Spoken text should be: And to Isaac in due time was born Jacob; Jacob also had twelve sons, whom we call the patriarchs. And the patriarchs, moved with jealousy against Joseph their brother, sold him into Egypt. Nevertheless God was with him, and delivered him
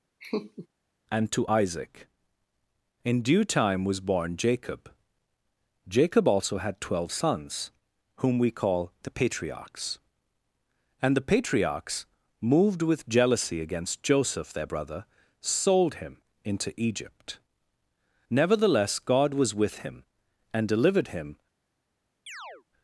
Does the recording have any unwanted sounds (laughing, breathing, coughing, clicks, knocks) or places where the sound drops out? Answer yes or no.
yes